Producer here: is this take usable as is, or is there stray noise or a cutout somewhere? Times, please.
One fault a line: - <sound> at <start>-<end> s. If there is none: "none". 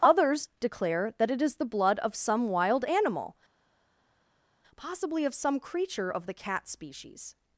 none